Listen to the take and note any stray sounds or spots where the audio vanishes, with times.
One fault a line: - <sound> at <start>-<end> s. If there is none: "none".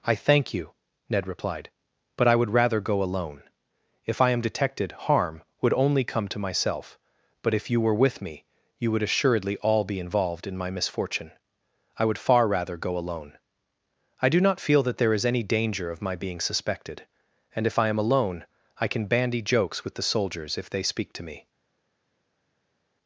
none